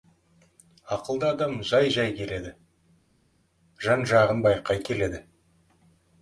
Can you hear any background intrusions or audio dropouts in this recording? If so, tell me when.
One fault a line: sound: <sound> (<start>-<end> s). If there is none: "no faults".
no faults